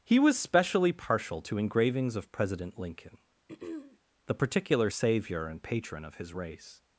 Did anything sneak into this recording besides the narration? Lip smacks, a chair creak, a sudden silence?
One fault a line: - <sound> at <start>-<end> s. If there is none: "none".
- throat clearing at 3.5-4.0 s